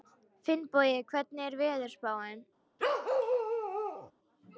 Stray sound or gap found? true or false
true